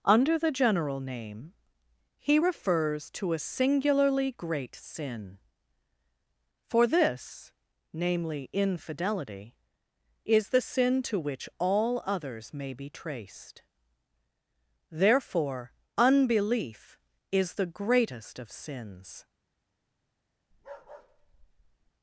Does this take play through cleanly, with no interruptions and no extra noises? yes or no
no